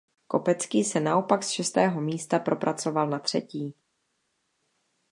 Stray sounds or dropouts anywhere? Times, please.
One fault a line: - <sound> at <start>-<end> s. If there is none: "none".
none